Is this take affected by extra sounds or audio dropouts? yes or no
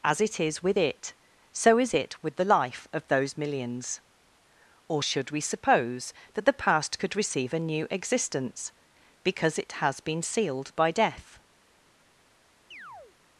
yes